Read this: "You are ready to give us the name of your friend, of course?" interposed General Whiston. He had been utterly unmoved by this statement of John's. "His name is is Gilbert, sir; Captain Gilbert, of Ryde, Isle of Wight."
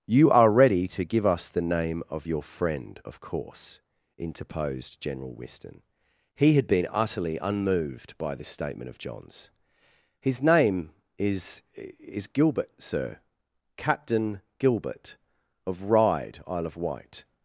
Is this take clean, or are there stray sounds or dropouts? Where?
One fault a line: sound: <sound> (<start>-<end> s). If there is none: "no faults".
no faults